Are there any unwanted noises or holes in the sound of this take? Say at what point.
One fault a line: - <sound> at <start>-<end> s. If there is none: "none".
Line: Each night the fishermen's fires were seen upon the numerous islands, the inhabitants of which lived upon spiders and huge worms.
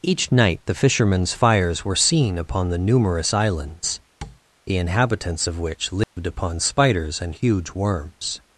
- tap at 4.2-4.4 s
- dropout at 6.0-6.2 s